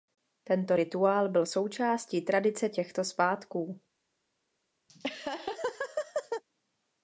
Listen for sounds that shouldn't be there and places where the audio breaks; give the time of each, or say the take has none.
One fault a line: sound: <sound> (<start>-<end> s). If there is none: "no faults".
sound: laugh (4.9-6.4 s)